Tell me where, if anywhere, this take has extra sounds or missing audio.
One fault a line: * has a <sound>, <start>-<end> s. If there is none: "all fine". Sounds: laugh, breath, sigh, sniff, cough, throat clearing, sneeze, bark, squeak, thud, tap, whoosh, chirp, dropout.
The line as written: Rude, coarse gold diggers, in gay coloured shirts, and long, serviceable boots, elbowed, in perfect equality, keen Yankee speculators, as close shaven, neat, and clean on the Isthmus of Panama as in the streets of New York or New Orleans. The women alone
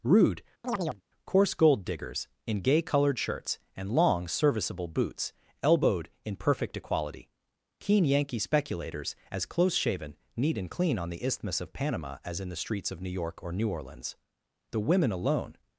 * has a chirp, 0.6-1.0 s